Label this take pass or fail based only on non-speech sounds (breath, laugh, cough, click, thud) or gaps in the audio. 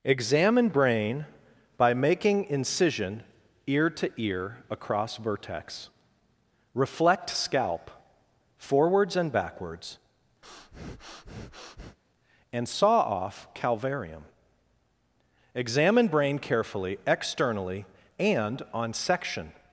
fail